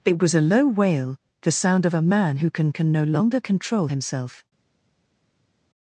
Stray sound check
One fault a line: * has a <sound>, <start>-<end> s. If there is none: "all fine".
all fine